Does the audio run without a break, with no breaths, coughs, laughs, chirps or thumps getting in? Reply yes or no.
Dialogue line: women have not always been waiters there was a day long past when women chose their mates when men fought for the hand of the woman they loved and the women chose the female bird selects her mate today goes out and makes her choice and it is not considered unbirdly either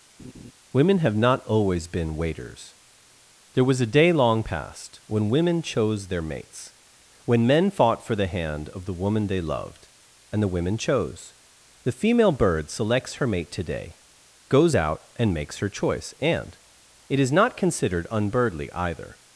no